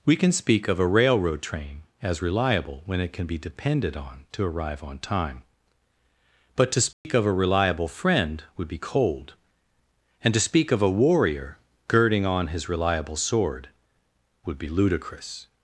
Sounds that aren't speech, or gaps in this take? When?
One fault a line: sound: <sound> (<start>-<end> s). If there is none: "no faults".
sound: dropout (6.9-7.0 s)